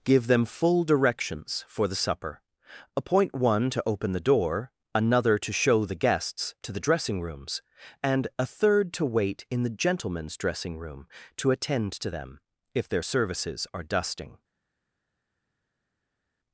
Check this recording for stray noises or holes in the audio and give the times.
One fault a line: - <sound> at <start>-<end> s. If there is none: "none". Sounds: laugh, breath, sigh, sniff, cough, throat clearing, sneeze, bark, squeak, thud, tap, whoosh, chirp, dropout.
none